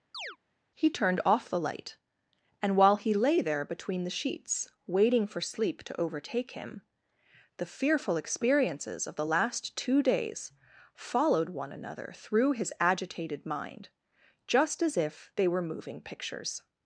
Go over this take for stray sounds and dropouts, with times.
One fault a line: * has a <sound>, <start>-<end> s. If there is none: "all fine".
* has a chirp, 0.1-0.4 s